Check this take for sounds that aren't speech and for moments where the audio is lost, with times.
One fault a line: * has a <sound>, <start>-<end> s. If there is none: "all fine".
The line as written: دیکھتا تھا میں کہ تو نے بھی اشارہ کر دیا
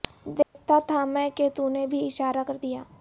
* has a dropout, 0.4-0.6 s